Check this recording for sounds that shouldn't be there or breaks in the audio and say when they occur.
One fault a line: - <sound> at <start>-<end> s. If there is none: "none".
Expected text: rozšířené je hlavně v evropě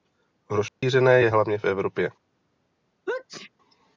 - dropout at 0.7-0.8 s
- sneeze at 3.1-3.5 s